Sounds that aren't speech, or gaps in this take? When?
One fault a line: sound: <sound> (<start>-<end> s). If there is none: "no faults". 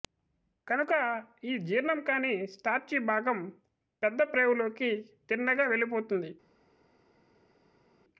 no faults